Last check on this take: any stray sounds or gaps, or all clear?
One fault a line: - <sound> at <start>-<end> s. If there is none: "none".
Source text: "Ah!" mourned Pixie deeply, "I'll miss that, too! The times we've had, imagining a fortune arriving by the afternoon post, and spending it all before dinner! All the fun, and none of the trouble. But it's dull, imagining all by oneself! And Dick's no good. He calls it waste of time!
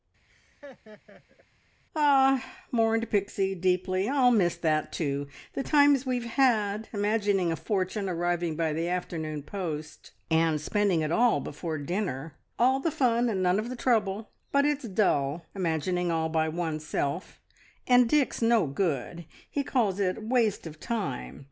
- laugh at 0.3-1.5 s